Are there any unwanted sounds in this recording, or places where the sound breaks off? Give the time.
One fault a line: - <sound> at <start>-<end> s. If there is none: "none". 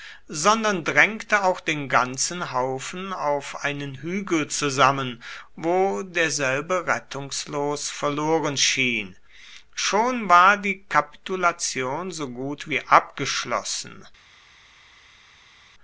none